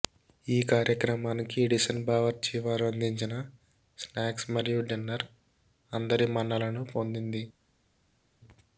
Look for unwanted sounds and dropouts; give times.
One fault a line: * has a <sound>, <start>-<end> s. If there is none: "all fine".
all fine